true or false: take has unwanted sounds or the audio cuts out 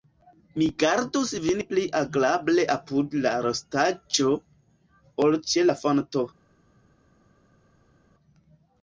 false